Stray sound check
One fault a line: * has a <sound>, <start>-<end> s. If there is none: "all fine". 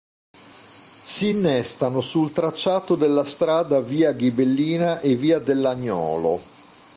all fine